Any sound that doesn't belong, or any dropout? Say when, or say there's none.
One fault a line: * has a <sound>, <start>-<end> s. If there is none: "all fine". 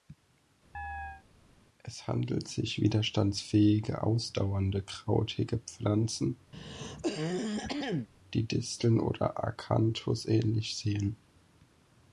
* has a chirp, 0.7-1.2 s
* has a throat clearing, 6.5-8.1 s